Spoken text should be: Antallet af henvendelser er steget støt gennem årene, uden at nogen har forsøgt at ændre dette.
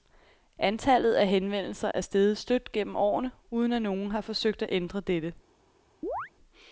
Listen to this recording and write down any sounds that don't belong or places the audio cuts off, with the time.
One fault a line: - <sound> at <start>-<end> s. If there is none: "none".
- dropout at 1.9-1.9 s
- chirp at 6.0-6.3 s